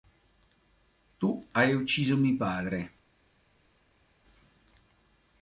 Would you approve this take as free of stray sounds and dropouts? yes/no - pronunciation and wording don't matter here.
yes